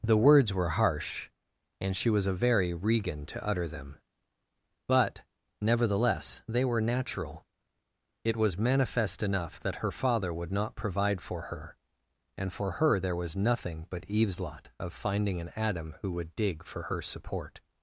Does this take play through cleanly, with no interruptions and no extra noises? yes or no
yes